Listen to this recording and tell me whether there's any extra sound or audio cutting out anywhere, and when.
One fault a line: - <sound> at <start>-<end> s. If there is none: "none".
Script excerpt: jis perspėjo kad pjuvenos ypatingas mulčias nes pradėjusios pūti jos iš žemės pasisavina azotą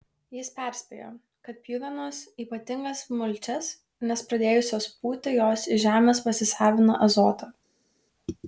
none